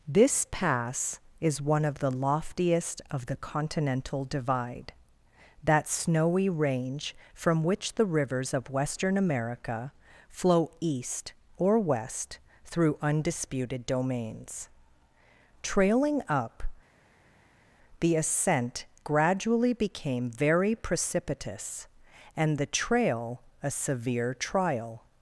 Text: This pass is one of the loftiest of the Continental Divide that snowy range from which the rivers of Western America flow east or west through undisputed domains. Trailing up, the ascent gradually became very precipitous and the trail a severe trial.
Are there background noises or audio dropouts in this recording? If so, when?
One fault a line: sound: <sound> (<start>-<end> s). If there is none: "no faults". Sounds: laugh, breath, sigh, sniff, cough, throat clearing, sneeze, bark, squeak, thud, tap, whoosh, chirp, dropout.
no faults